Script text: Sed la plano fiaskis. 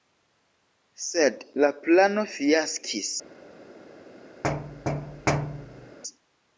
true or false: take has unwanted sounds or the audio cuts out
true